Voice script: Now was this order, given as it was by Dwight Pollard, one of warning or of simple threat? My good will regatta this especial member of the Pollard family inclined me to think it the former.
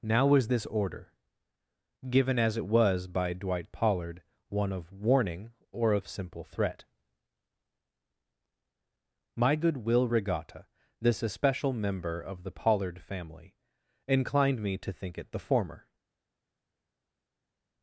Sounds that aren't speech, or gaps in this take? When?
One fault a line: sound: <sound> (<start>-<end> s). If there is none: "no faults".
no faults